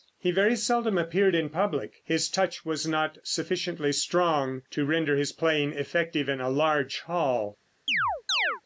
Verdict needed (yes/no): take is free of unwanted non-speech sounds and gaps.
no